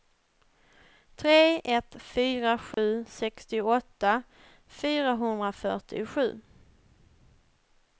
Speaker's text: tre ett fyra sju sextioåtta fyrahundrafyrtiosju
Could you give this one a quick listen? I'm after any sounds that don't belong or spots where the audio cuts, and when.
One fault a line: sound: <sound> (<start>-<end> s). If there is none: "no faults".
sound: dropout (2.7-2.8 s)